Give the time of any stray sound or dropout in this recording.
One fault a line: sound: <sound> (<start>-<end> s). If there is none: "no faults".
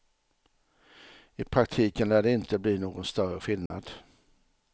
sound: dropout (3.7-3.7 s)